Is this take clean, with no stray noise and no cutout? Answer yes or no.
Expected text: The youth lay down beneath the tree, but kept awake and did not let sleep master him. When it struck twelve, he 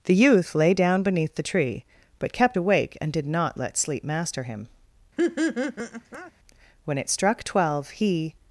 no